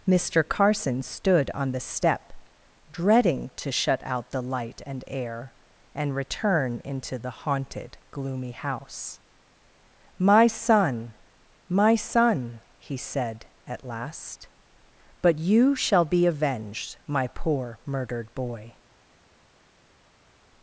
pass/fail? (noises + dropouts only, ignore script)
pass